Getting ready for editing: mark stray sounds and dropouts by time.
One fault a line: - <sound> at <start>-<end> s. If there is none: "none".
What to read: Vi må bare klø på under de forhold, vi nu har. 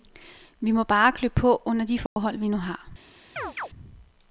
- dropout at 2.1-2.2 s
- chirp at 3.4-3.7 s